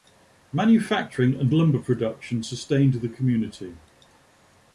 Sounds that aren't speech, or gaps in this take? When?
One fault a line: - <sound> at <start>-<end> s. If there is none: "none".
none